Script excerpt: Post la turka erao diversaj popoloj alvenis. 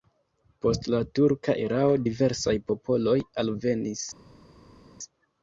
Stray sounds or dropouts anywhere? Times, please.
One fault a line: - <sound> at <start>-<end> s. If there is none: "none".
none